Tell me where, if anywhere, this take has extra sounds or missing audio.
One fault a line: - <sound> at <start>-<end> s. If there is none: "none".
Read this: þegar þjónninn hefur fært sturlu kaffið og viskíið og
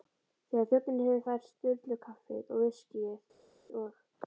none